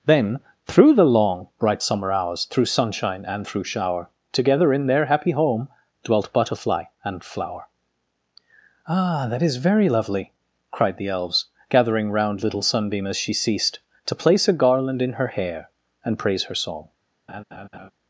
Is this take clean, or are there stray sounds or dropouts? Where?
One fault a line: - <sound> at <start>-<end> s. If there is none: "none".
- laugh at 17.3-17.9 s